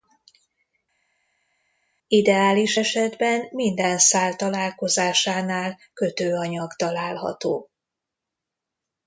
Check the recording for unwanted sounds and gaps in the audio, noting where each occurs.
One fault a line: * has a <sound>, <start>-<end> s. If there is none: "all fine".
all fine